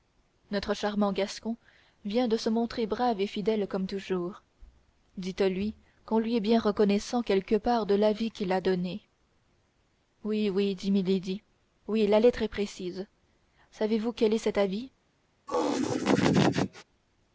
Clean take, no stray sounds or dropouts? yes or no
no